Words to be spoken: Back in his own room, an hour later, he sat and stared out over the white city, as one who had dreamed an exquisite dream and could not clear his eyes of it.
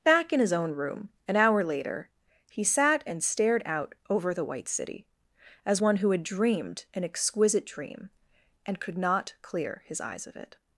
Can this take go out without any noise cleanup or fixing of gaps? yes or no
yes